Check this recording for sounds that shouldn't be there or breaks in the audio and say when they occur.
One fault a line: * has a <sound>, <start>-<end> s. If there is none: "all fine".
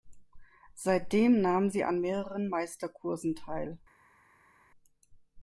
all fine